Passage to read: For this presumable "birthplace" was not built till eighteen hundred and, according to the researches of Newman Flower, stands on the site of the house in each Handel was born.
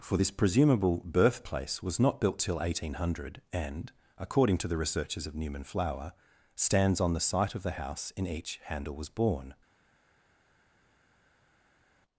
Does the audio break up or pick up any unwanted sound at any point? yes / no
no